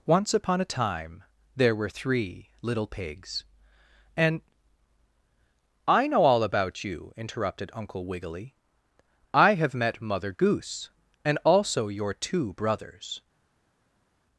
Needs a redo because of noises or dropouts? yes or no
no